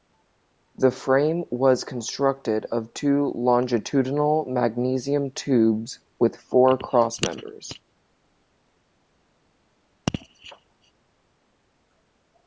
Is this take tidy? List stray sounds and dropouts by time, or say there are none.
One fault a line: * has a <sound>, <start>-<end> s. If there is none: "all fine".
all fine